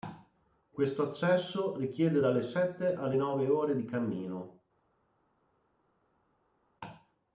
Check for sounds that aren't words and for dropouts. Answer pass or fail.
pass